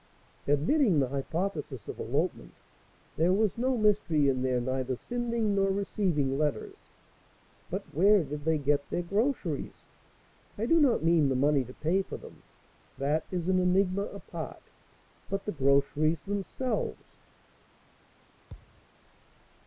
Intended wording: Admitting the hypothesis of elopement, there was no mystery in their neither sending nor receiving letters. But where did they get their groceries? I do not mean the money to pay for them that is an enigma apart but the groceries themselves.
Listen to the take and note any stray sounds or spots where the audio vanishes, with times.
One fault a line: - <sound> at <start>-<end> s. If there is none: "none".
- thud at 18.5-18.9 s